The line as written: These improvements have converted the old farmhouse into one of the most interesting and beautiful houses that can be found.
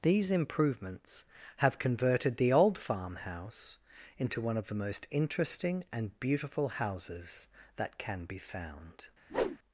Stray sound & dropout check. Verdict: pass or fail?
fail